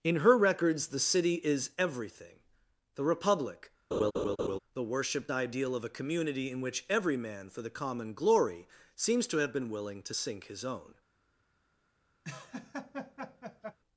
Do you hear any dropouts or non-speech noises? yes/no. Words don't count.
yes